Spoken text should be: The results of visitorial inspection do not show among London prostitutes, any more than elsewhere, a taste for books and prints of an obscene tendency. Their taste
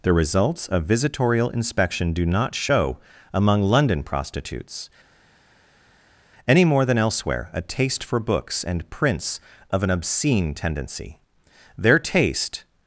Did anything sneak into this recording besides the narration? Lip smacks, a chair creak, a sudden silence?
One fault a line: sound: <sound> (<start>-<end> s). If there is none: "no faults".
no faults